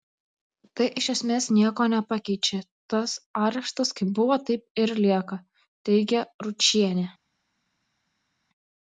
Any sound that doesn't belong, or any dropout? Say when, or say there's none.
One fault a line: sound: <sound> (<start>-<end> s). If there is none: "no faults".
no faults